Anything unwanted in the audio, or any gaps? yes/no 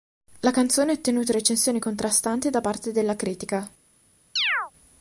yes